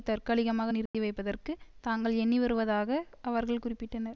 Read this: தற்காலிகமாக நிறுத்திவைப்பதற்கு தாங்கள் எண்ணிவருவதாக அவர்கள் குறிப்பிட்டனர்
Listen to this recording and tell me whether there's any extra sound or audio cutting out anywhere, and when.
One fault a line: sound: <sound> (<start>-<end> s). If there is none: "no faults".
sound: dropout (0.9-0.9 s)